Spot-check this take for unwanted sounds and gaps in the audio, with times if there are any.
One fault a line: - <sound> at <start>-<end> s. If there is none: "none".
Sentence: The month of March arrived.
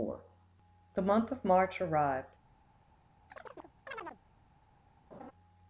- chirp at 3.3-4.2 s
- laugh at 5.1-5.3 s